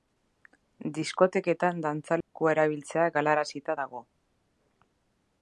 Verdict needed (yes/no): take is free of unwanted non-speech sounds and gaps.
no